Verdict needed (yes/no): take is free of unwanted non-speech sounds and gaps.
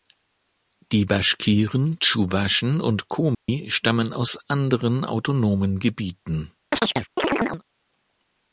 no